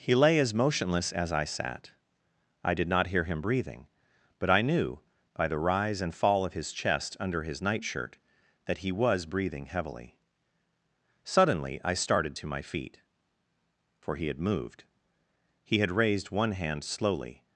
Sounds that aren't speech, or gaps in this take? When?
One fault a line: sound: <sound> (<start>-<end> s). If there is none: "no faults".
no faults